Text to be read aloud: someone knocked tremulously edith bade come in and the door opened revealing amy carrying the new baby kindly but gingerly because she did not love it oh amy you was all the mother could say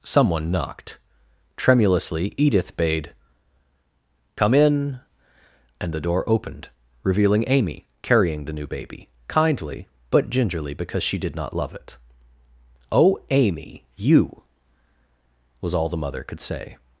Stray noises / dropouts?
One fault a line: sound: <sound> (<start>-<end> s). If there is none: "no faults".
no faults